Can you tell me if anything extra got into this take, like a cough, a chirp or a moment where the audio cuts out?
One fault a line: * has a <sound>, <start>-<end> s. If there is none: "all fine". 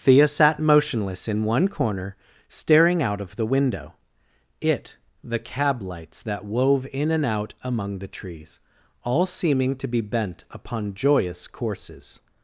all fine